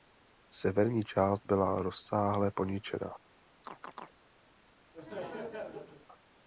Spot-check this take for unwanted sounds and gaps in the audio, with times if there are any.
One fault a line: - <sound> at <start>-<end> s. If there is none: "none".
- chirp at 3.6-4.1 s
- laugh at 4.9-6.1 s